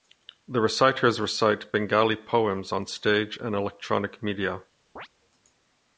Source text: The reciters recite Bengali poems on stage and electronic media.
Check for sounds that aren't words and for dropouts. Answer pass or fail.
fail